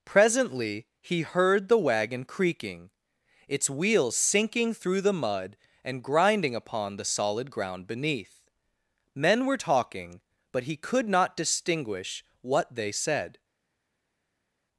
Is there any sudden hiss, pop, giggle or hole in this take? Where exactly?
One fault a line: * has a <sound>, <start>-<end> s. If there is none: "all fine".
all fine